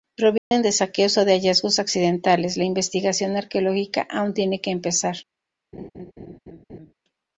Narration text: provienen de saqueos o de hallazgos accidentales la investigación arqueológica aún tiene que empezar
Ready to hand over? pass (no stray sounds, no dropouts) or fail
fail